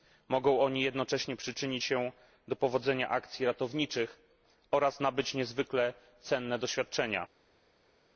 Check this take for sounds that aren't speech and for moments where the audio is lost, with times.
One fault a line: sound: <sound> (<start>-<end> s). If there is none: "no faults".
no faults